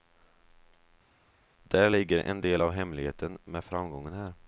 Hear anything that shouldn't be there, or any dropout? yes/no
no